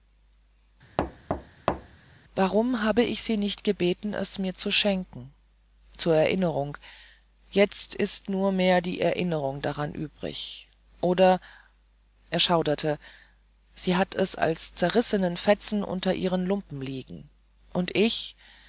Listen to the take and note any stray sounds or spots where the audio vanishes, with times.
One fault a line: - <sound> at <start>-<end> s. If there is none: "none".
- thud at 1.0-2.0 s